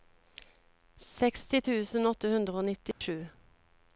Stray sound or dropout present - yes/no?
yes